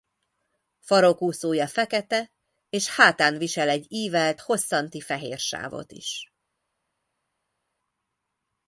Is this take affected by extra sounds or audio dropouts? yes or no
no